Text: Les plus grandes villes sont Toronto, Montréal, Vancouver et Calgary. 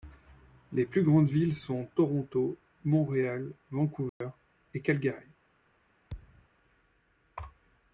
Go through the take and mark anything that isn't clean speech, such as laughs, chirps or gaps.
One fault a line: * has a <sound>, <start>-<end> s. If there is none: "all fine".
* has a dropout, 4.1-4.2 s
* has a thud, 6.1-6.5 s